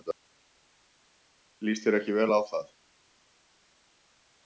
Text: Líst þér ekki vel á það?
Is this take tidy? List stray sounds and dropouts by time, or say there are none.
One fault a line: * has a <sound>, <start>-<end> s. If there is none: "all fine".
all fine